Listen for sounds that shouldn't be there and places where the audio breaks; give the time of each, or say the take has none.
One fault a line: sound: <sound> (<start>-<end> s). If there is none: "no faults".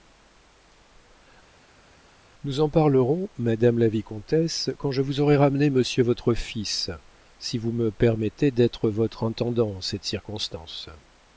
no faults